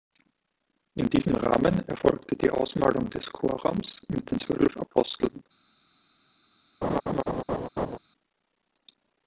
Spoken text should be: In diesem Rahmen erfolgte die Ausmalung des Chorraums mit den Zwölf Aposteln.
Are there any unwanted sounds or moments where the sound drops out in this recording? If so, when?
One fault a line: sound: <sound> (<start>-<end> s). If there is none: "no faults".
sound: laugh (6.8-8.0 s)